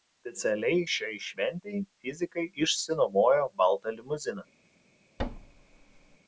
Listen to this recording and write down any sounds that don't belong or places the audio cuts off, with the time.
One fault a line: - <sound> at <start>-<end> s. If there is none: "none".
- thud at 5.2-6.2 s